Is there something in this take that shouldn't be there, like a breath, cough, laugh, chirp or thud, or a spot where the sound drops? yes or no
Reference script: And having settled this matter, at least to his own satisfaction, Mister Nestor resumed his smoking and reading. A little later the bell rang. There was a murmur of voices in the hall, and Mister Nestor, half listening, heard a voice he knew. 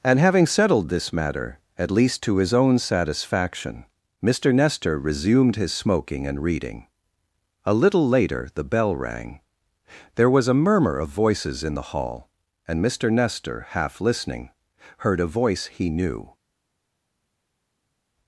no